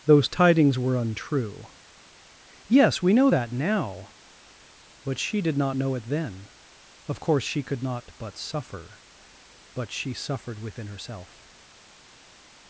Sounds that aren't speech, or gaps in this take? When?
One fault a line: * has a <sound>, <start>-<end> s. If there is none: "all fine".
all fine